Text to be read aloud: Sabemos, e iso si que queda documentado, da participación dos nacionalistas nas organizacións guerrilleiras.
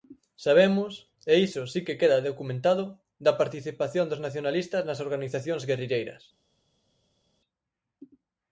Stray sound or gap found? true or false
false